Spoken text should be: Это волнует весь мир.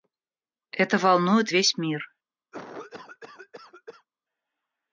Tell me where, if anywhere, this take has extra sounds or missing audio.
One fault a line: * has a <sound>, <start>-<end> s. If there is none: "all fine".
* has a cough, 2.5-4.1 s